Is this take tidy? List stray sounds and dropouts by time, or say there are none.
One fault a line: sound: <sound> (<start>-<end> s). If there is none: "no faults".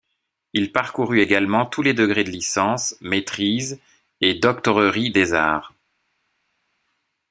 no faults